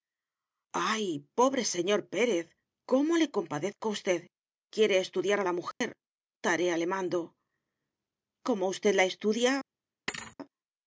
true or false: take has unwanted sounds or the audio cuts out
true